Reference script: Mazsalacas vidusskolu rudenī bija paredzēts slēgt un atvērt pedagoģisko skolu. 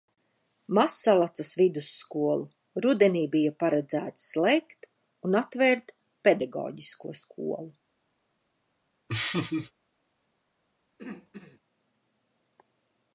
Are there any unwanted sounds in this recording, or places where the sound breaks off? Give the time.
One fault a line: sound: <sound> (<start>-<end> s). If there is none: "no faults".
sound: laugh (9.1-9.7 s)
sound: throat clearing (11.0-11.6 s)